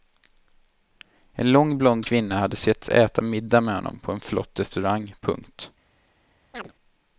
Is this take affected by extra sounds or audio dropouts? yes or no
yes